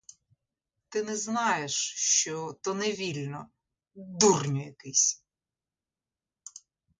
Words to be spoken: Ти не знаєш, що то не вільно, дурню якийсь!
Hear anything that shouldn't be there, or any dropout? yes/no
no